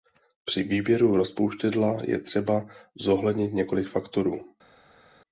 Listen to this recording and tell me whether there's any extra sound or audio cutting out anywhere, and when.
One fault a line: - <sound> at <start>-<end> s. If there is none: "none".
none